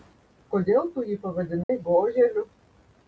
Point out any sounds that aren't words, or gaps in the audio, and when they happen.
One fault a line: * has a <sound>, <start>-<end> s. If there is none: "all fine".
* has a dropout, 1.6-1.7 s